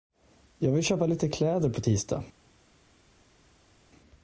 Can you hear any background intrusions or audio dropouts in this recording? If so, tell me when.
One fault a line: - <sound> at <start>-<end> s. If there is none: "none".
none